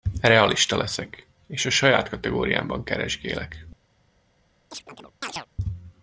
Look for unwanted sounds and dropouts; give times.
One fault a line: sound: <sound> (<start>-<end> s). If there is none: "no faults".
sound: chirp (4.7-5.5 s)